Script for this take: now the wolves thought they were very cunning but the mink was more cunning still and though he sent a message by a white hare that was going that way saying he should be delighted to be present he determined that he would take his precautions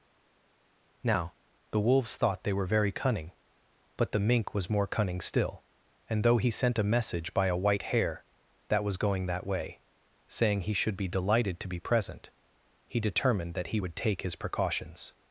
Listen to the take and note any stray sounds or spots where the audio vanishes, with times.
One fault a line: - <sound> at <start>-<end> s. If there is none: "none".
none